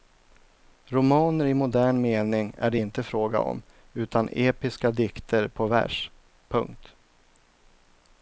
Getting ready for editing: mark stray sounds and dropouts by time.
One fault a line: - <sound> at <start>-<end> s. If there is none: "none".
none